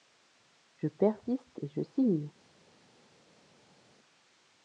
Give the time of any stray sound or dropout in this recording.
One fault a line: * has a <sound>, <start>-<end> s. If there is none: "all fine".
all fine